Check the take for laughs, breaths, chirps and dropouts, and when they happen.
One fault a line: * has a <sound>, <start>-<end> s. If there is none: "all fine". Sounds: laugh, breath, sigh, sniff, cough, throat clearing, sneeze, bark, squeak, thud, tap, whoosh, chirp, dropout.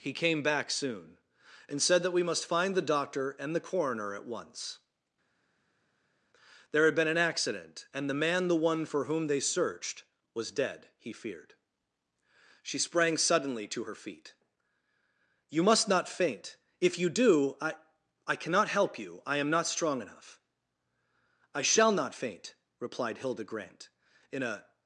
all fine